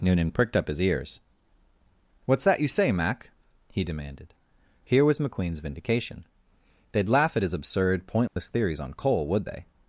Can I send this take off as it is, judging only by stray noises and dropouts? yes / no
no